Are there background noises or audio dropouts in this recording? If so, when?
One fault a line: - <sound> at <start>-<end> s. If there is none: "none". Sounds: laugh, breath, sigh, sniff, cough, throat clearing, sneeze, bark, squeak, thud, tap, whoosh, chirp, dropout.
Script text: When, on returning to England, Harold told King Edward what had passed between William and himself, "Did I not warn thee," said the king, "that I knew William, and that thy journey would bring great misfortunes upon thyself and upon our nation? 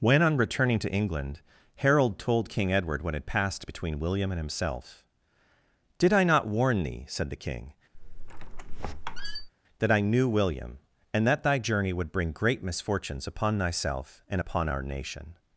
- squeak at 7.9-9.5 s